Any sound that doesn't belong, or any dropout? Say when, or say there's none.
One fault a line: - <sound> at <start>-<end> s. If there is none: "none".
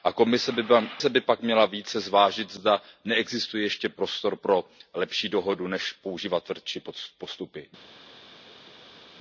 none